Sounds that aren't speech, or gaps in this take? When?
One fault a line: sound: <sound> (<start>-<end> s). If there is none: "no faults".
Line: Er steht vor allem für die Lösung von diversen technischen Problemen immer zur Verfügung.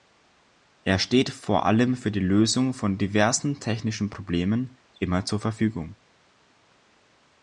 no faults